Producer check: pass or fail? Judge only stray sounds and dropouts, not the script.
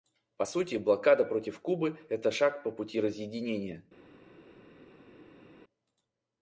pass